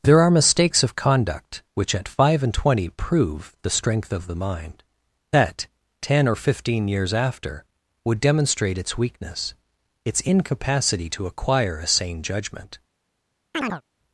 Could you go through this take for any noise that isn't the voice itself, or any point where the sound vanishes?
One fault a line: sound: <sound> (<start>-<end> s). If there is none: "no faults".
sound: chirp (13.5-13.8 s)